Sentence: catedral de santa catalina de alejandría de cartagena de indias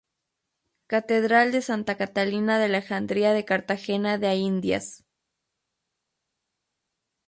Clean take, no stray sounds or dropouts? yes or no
yes